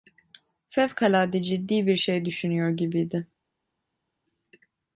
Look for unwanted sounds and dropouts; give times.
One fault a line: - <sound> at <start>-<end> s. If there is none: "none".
none